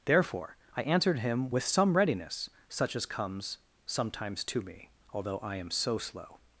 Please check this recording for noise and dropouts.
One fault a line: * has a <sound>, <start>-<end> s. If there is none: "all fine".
all fine